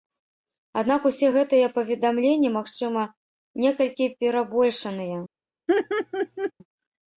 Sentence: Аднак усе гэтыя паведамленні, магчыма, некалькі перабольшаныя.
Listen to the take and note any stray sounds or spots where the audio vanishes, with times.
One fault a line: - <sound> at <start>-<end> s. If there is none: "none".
- laugh at 5.7-6.5 s